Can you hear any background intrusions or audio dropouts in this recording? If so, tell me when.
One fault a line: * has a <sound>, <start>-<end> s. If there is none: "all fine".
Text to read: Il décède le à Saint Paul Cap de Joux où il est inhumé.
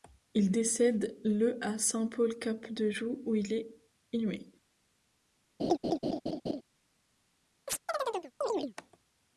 * has a laugh, 5.6-6.6 s
* has a chirp, 7.7-8.7 s